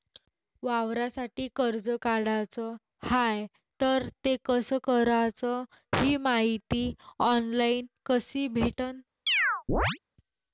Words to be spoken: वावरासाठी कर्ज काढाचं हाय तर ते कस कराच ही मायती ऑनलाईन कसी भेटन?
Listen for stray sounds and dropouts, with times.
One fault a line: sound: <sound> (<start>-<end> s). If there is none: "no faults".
sound: chirp (9.3-10.0 s)